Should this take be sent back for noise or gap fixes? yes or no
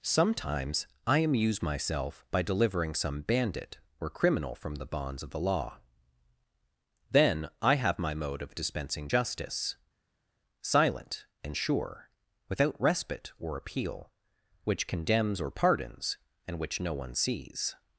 no